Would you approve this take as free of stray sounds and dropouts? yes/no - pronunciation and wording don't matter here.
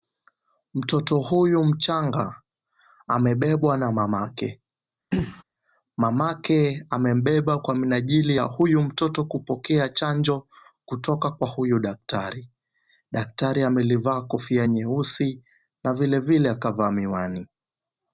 no